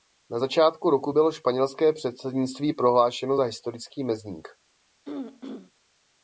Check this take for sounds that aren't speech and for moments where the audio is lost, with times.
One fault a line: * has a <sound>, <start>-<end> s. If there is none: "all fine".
* has a throat clearing, 5.1-5.7 s